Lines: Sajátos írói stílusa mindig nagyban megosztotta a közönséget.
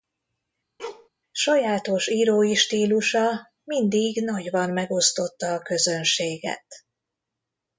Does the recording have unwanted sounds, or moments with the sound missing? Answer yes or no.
yes